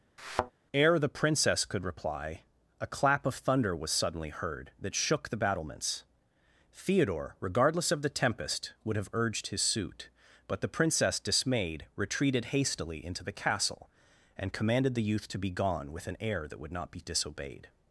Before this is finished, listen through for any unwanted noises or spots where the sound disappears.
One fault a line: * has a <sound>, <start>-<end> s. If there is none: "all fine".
* has a thud, 0.2-0.5 s